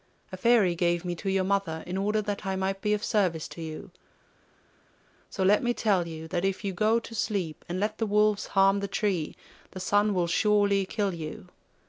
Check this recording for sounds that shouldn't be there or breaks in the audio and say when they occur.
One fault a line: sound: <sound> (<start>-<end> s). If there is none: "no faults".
no faults